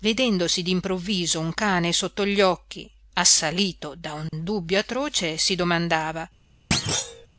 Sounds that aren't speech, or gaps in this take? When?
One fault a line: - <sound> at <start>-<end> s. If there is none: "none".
- dropout at 4.3-4.3 s
- thud at 6.7-7.3 s